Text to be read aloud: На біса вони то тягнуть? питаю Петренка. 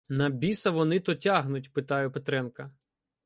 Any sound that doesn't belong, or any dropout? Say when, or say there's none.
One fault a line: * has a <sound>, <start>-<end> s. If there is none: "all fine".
all fine